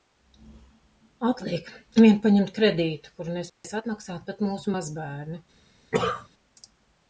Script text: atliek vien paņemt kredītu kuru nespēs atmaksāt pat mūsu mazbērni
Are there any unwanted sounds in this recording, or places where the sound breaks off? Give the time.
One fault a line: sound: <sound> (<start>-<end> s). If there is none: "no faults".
sound: dropout (3.5-3.6 s)
sound: cough (5.9-6.3 s)